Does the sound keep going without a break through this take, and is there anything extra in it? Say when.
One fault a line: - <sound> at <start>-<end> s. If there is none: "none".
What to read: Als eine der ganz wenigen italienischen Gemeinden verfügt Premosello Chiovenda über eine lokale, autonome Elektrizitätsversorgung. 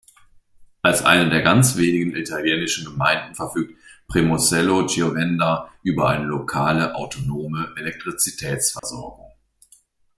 - dropout at 8.8-8.8 s